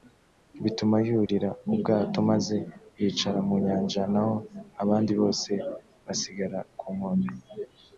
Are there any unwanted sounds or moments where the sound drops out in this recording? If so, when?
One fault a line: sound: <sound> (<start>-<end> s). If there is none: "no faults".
sound: dropout (1.3-1.3 s)